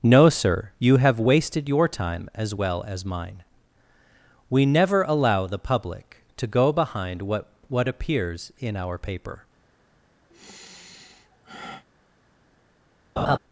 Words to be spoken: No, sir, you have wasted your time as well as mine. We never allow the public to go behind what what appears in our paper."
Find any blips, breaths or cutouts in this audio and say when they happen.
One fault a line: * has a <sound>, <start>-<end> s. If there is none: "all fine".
* has a sigh, 10.3-11.8 s
* has a laugh, 13.2-13.4 s